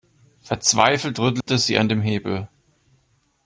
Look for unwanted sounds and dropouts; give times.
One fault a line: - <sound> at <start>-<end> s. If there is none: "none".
- dropout at 1.4-1.5 s